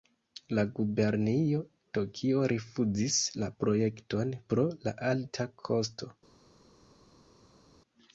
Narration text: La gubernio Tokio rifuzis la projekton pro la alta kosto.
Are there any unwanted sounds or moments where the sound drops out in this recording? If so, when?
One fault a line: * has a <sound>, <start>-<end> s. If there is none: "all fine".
all fine